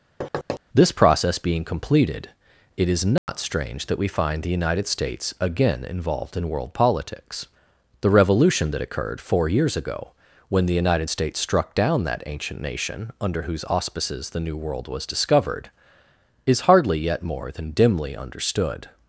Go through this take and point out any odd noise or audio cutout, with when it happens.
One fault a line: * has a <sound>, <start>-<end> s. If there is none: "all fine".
* has a thud, 0.2-0.6 s
* has a dropout, 3.2-3.3 s